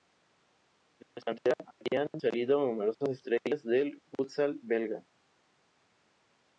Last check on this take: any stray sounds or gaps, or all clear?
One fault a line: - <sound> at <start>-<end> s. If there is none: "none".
none